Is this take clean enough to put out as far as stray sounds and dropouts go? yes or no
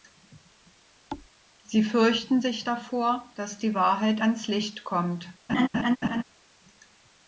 no